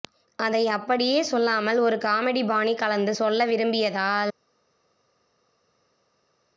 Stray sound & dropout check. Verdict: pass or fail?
pass